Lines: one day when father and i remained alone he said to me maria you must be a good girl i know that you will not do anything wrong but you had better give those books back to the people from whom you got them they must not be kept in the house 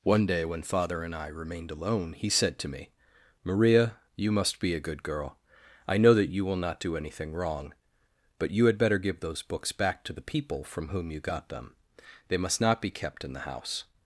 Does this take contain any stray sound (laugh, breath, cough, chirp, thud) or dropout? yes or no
no